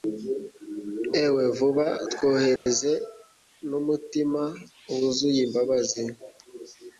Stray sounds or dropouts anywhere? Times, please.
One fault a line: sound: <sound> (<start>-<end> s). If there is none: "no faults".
sound: dropout (2.6-2.7 s)